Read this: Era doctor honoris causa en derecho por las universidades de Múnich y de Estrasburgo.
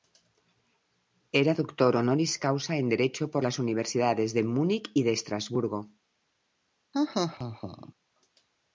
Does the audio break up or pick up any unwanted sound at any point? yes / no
yes